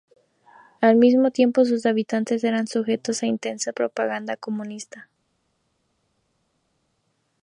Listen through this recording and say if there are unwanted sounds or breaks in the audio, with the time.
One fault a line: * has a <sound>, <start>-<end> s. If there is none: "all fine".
all fine